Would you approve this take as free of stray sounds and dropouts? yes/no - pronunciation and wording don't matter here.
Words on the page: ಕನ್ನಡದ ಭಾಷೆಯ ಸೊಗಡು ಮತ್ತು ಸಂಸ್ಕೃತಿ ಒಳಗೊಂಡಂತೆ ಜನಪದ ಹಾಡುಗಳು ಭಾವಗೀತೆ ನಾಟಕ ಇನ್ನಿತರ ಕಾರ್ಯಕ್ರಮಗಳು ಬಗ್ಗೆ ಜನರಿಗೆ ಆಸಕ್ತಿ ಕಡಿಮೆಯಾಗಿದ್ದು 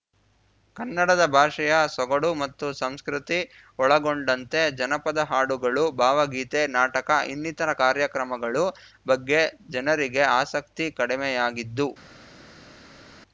yes